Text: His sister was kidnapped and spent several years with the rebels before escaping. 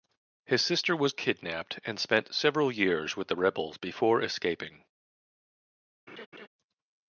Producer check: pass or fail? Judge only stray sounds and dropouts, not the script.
fail